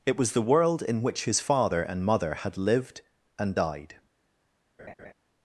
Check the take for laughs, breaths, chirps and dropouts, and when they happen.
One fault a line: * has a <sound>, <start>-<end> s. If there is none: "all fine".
* has a laugh, 4.8-5.1 s